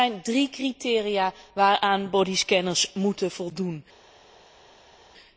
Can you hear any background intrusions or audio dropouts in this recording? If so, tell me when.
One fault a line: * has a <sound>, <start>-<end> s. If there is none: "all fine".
all fine